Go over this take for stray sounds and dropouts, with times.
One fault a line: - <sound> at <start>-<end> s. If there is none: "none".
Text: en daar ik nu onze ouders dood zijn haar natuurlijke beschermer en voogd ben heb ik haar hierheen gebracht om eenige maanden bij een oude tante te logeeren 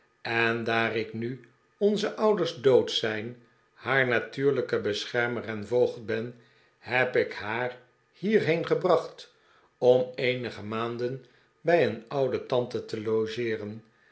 none